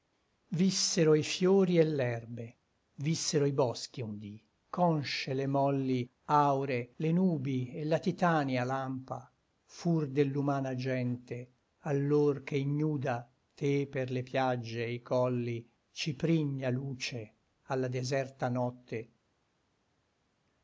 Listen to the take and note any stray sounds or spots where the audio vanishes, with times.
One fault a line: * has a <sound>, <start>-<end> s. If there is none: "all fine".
all fine